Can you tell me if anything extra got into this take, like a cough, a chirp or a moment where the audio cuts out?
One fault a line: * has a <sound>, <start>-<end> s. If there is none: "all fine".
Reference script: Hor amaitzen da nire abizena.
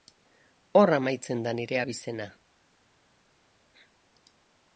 all fine